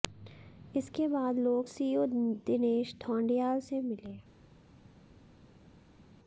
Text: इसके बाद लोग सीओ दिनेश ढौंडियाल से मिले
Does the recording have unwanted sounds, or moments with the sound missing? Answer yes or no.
no